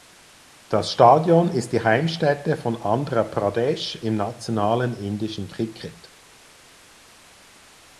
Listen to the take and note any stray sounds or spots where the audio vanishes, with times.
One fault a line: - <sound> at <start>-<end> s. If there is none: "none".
none